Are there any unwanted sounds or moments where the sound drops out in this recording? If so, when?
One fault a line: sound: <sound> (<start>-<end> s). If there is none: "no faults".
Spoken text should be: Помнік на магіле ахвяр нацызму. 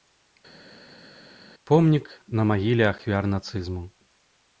no faults